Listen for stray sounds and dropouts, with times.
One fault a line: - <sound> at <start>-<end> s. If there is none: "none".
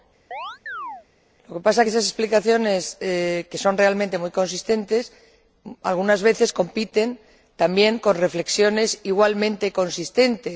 - chirp at 0.3-1.1 s